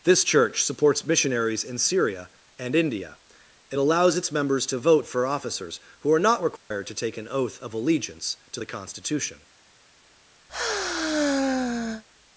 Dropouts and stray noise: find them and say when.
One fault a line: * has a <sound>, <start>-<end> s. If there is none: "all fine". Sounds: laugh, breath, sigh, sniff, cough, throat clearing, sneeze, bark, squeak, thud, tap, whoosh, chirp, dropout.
* has a dropout, 6.6-6.7 s
* has a sigh, 10.5-12.0 s